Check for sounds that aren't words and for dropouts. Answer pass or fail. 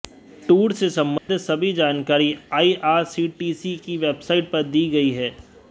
fail